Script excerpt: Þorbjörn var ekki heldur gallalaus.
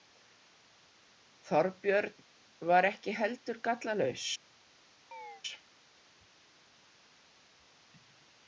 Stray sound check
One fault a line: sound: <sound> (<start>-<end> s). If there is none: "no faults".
sound: chirp (5.1-5.4 s)